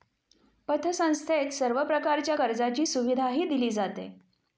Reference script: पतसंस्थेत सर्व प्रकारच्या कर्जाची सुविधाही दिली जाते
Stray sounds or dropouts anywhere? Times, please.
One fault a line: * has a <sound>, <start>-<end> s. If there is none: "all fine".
all fine